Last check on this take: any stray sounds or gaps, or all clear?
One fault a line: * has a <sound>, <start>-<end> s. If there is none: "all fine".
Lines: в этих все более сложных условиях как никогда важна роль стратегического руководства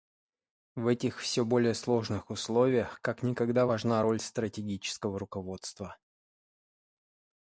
all fine